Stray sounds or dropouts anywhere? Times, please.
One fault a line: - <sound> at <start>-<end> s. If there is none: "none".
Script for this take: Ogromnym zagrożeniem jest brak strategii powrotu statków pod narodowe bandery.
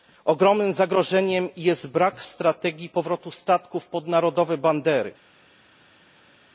none